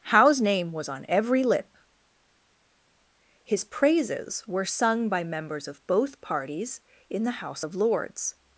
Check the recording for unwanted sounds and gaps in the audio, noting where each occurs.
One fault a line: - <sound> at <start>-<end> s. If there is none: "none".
none